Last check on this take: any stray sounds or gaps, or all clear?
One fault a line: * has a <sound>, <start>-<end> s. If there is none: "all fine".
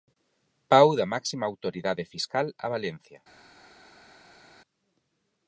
all fine